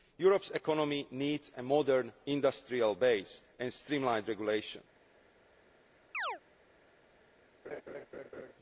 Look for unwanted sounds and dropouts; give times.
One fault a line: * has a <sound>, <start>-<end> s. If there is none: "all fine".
* has a chirp, 6.1-6.4 s
* has a laugh, 7.6-8.5 s